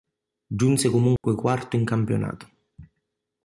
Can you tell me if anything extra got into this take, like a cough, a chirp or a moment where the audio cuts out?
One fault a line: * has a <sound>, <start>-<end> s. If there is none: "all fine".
* has a dropout, 1.2-1.2 s